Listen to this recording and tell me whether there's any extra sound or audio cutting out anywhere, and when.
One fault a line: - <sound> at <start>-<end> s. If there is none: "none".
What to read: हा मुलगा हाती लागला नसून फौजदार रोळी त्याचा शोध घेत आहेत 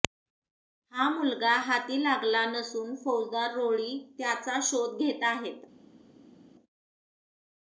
none